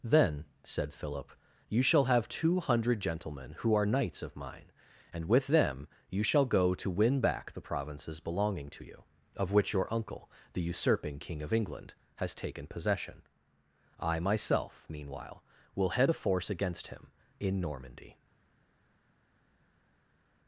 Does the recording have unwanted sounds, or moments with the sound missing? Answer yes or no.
no